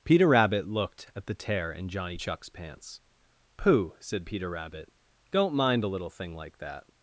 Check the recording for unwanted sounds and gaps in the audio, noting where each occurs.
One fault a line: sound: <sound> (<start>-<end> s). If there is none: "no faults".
no faults